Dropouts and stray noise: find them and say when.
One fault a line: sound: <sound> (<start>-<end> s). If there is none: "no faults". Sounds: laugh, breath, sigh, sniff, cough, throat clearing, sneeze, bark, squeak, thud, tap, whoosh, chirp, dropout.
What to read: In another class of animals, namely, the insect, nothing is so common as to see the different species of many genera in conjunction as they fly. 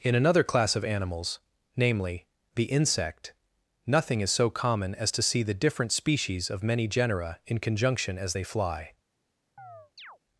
sound: chirp (9.6-10.2 s)